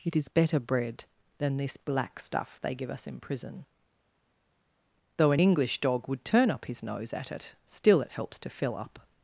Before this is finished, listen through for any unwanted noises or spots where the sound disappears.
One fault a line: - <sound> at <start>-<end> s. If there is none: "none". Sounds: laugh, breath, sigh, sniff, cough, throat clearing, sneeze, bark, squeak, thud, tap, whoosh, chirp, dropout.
none